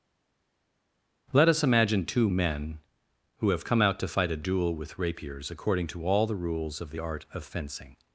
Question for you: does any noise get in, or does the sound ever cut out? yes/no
no